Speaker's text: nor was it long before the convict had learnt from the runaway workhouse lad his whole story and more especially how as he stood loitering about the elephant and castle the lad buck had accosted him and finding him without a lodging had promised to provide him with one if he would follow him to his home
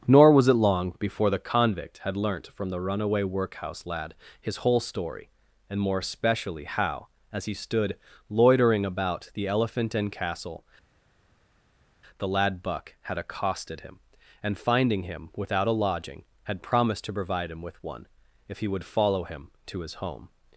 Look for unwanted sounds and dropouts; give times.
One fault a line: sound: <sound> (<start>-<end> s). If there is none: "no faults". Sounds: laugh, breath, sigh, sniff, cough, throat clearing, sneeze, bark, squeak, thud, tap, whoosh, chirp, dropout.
no faults